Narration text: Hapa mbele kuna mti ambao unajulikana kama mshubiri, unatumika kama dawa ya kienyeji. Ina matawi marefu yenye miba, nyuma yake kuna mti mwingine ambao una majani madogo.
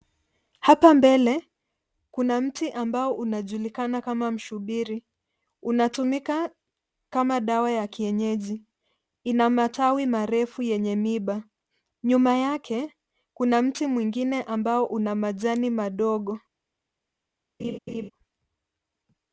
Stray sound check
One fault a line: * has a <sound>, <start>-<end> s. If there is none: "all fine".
* has a laugh, 17.6-18.1 s